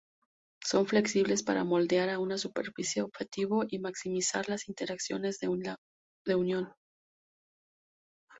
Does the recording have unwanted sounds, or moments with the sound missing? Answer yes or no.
no